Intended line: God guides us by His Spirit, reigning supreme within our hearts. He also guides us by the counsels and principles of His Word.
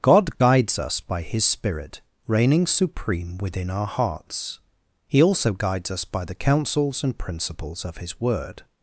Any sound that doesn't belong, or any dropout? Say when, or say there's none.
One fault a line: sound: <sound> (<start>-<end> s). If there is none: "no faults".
no faults